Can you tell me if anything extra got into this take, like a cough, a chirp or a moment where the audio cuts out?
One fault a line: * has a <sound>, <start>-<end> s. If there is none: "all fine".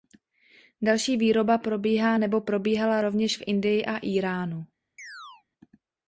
* has a chirp, 5.0-5.4 s